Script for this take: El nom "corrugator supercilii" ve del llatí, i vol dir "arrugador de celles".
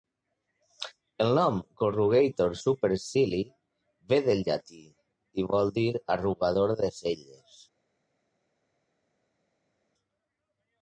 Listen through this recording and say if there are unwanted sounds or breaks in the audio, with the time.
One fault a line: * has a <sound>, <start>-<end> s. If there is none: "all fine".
all fine